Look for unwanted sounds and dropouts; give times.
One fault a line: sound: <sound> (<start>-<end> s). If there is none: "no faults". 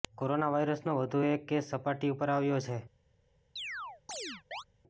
sound: chirp (3.6-4.6 s)